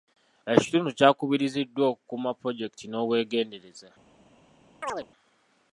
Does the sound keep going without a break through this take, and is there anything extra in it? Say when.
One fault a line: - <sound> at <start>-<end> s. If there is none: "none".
- chirp at 4.8-5.1 s